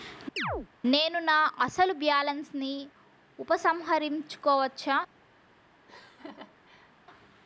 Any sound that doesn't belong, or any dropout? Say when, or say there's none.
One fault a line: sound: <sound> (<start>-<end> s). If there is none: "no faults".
sound: chirp (0.4-0.7 s)
sound: laugh (5.9-6.9 s)